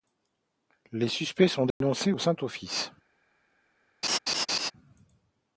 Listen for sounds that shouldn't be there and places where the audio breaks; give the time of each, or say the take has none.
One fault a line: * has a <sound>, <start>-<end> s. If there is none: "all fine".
* has a dropout, 1.7-1.8 s
* has a laugh, 4.0-4.7 s